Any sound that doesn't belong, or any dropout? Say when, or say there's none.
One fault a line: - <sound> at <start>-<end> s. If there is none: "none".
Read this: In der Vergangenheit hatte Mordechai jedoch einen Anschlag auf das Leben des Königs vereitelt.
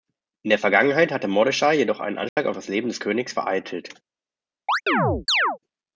- dropout at 2.3-2.4 s
- chirp at 4.7-5.6 s